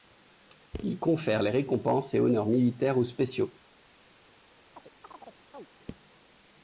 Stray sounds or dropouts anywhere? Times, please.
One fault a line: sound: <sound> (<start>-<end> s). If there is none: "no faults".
sound: chirp (4.7-5.7 s)